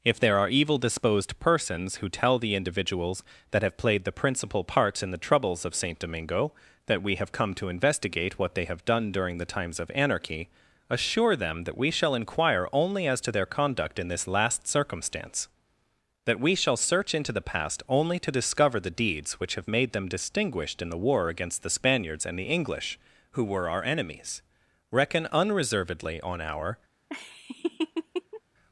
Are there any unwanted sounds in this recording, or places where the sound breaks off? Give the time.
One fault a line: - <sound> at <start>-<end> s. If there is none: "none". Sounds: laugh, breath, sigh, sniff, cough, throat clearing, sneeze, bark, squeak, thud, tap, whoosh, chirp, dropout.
- laugh at 27.1-28.4 s